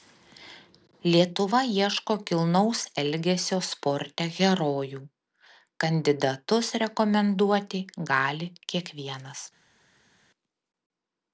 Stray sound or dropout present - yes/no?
no